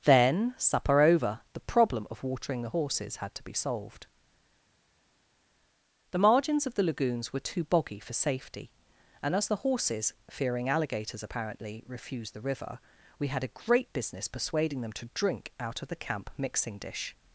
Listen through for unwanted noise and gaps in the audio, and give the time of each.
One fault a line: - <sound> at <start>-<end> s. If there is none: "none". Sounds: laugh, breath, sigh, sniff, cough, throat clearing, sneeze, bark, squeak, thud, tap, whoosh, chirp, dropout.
none